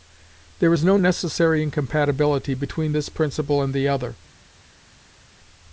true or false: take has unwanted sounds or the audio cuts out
false